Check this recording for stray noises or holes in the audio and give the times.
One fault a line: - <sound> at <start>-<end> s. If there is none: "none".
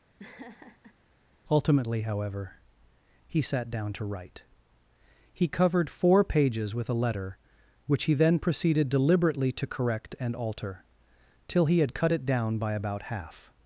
- laugh at 0.2-1.0 s